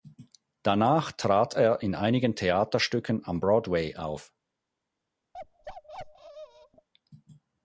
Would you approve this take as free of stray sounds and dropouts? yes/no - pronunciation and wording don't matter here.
no